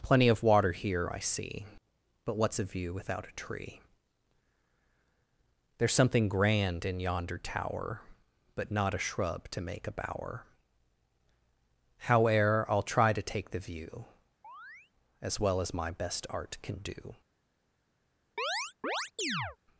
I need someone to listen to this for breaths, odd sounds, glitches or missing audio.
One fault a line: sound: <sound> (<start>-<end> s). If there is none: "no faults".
sound: chirp (14.4-14.9 s)
sound: chirp (18.4-19.6 s)